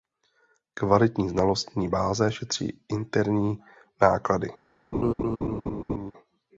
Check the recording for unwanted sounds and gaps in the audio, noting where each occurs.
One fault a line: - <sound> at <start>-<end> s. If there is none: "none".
- laugh at 4.9-6.1 s